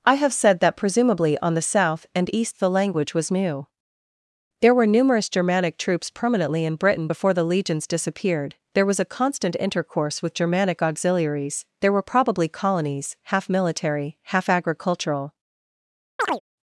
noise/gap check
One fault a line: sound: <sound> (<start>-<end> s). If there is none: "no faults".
sound: chirp (16.2-16.4 s)